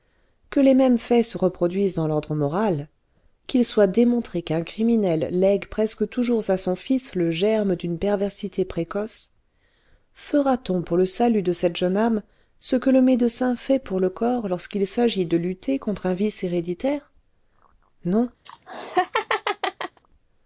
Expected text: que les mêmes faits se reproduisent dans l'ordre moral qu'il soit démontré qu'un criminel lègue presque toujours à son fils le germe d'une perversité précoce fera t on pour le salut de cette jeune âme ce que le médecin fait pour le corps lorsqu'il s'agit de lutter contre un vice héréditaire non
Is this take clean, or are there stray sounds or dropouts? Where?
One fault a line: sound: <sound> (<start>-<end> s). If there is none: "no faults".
sound: laugh (18.5-20.0 s)